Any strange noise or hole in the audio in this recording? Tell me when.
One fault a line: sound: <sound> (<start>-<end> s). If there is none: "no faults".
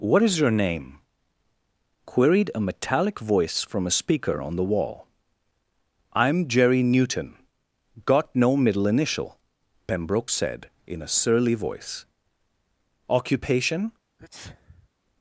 sound: sneeze (14.2-14.9 s)